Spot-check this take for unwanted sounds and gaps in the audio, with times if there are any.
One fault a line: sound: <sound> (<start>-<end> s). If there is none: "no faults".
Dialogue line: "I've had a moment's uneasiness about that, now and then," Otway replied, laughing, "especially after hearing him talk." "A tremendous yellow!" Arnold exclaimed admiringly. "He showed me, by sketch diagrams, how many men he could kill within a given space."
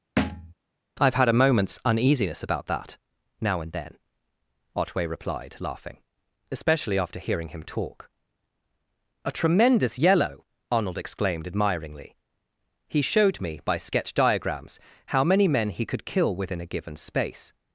sound: thud (0.2-0.5 s)